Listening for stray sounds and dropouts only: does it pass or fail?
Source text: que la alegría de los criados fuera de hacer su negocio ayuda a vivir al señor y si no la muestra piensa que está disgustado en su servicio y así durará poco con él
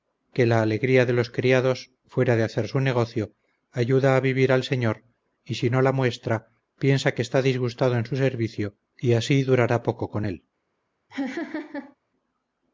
fail